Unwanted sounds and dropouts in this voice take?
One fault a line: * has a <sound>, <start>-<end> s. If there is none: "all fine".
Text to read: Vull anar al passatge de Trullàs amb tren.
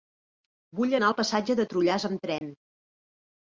* has a dropout, 2.4-2.4 s